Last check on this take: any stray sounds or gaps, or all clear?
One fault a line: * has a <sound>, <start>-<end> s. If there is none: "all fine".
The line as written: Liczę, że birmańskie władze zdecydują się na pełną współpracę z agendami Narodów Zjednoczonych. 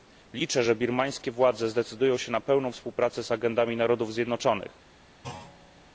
* has a thud, 5.2-5.9 s